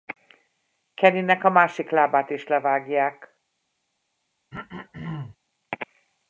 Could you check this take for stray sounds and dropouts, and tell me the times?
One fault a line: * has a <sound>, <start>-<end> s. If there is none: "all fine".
* has a throat clearing, 4.5-5.4 s